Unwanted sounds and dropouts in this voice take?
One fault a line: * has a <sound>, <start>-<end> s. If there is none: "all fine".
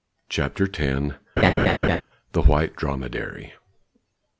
* has a laugh, 1.4-2.0 s